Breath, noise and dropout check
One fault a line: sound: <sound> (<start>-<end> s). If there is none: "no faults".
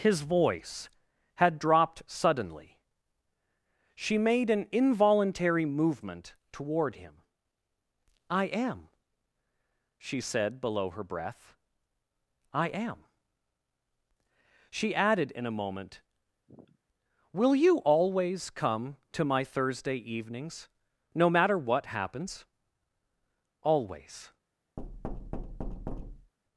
sound: sniff (16.5-16.8 s)
sound: thud (24.8-26.3 s)